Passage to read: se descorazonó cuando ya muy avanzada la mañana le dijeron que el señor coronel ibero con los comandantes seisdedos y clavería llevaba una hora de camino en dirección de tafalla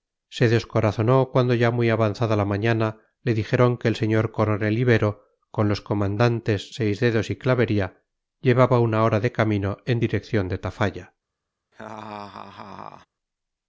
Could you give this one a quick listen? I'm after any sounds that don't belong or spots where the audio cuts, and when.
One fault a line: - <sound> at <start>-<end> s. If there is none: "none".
- laugh at 11.7-13.1 s